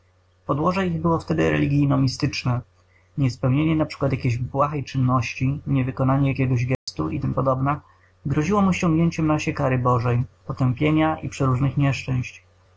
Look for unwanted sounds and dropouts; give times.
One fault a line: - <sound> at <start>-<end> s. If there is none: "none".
- dropout at 6.7-6.9 s